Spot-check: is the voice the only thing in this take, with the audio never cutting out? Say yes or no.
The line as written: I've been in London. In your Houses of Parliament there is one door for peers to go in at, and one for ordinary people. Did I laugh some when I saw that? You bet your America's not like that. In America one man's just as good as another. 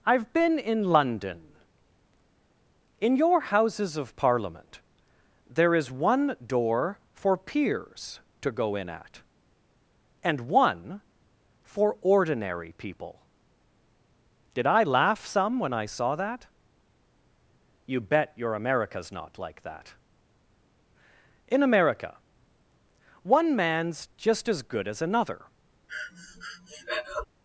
no